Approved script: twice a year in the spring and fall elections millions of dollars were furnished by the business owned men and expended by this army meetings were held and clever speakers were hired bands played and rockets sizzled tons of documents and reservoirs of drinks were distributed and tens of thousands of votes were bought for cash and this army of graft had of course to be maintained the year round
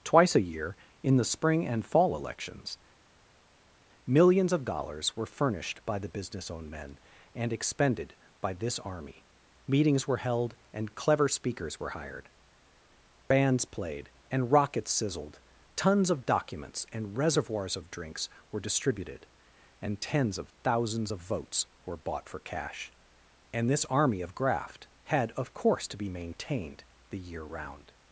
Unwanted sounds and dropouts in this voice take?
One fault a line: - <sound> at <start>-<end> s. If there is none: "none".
none